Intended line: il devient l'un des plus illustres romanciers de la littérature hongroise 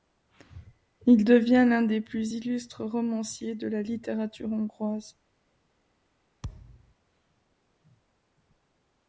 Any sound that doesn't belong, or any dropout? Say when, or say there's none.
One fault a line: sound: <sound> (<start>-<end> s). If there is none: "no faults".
sound: thud (6.4-6.9 s)